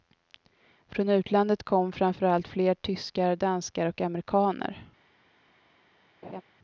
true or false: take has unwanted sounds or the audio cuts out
true